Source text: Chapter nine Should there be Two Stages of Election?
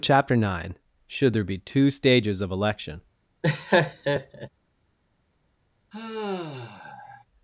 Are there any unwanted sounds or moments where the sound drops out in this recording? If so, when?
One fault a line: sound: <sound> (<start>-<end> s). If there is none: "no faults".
sound: laugh (3.4-4.5 s)
sound: sigh (5.9-7.2 s)